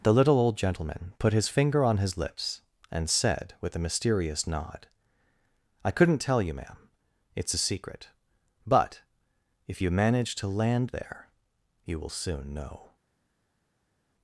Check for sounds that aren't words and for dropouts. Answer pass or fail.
pass